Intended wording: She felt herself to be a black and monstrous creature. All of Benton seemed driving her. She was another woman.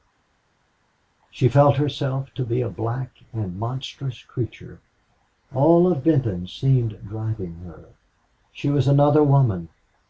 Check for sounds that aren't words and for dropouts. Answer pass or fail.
pass